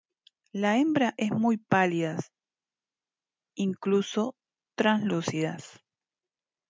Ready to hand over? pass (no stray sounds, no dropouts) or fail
pass